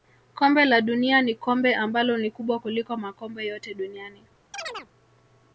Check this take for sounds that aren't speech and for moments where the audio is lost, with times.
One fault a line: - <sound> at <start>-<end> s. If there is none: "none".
- chirp at 4.5-4.9 s